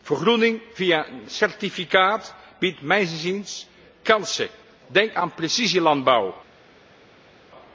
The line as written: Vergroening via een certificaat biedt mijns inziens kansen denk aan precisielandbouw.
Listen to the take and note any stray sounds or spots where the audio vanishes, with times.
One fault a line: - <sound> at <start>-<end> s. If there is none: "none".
none